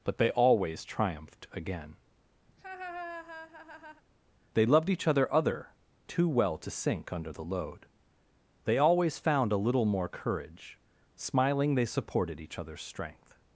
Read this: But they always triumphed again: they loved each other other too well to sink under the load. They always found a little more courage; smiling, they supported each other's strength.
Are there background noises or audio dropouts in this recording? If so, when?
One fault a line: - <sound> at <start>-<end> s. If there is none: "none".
- laugh at 2.5-4.0 s